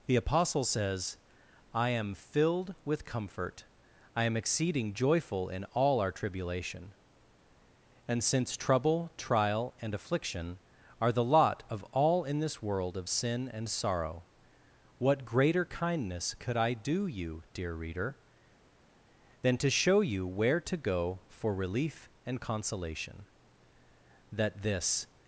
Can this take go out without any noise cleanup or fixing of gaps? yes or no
yes